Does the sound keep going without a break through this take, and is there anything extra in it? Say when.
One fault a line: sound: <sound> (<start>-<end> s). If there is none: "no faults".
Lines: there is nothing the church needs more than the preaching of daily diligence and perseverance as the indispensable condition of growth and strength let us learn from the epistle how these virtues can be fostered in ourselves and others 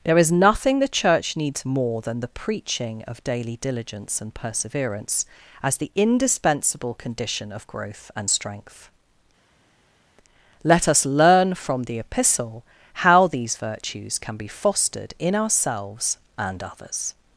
no faults